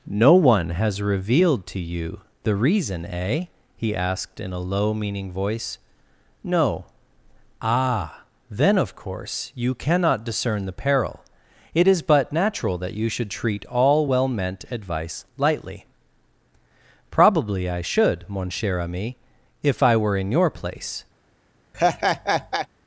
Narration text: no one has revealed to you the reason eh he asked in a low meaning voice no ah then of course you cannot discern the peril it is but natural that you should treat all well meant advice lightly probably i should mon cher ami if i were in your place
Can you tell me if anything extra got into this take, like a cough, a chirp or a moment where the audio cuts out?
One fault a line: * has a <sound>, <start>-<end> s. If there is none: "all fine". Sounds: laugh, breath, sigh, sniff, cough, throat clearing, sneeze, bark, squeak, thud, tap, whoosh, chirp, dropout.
* has a laugh, 21.7-22.7 s